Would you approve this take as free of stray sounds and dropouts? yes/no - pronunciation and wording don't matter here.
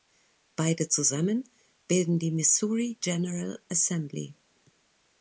yes